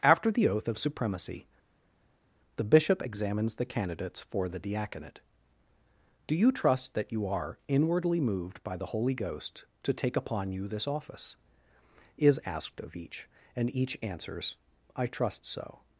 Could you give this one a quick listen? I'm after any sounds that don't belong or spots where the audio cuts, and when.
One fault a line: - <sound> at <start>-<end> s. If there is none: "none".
none